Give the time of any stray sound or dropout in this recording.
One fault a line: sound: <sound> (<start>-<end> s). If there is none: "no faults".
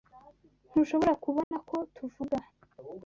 sound: dropout (1.4-1.5 s)